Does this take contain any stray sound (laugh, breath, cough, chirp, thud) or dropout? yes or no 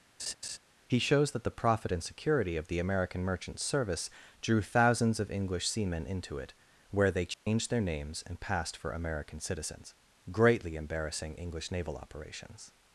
yes